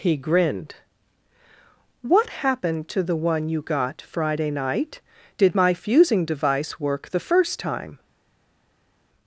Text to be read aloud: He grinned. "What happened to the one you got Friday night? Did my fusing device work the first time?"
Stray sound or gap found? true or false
false